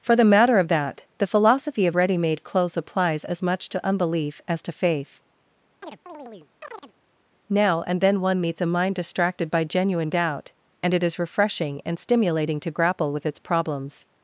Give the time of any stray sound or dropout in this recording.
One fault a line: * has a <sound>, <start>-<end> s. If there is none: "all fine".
* has a chirp, 5.8-6.9 s